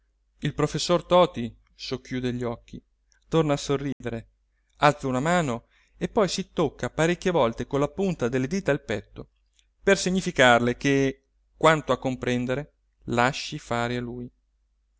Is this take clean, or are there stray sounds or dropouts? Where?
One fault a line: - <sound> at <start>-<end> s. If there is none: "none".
- dropout at 3.9-4.0 s